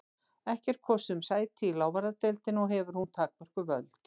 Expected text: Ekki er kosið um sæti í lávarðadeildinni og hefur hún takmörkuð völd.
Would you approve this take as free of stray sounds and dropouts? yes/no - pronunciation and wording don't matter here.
yes